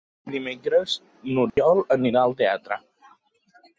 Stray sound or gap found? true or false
true